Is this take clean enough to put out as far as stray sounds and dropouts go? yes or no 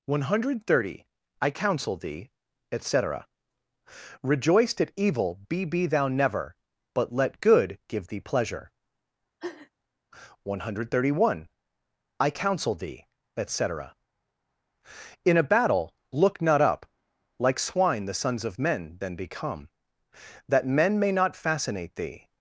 no